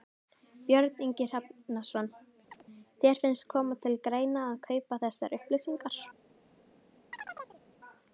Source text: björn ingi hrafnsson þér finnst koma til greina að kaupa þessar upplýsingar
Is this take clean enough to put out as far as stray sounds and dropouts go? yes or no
no